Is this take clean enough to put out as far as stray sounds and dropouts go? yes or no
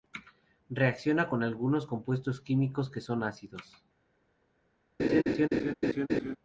no